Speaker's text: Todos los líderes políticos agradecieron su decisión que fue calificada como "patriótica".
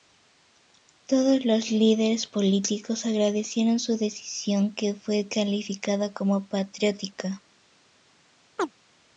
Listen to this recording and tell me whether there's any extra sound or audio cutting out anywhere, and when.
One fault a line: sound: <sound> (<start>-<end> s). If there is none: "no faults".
sound: chirp (8.6-8.7 s)